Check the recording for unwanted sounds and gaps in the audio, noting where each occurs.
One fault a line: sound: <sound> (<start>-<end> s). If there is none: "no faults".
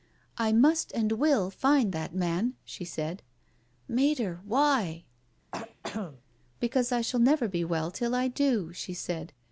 sound: throat clearing (5.5-6.2 s)